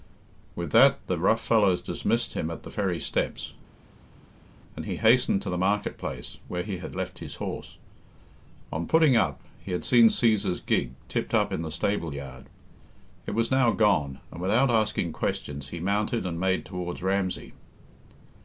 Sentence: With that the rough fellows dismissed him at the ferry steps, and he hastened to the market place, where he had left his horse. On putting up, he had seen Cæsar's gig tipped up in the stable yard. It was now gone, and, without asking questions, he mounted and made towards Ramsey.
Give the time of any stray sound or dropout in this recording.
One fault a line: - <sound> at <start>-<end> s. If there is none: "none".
none